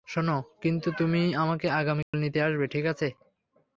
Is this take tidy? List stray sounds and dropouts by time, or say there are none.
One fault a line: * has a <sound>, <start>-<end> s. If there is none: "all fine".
* has a dropout, 2.0-2.1 s